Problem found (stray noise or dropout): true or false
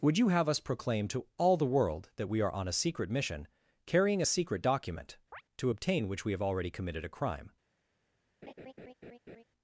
true